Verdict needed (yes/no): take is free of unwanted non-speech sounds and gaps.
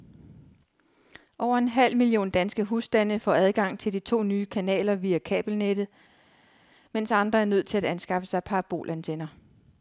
yes